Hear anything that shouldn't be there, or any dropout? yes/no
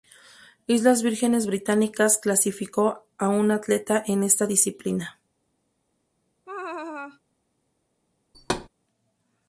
yes